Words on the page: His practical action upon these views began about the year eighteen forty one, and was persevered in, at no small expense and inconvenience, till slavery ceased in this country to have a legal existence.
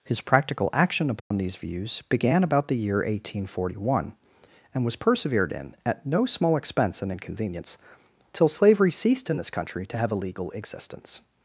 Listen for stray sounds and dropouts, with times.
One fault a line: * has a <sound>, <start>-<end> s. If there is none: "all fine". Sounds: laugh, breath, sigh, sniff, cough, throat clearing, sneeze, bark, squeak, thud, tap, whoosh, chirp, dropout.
* has a dropout, 1.2-1.3 s